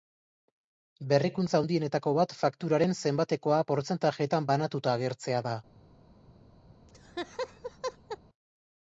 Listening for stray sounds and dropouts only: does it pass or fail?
fail